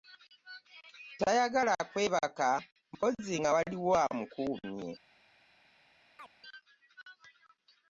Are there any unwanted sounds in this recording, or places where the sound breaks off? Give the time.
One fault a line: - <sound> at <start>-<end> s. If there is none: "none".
- chirp at 6.2-6.3 s